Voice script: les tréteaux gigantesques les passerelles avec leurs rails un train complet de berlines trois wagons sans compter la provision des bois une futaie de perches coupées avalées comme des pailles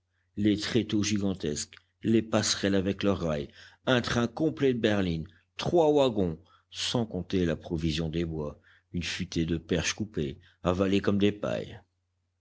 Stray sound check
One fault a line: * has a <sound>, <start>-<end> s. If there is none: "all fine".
all fine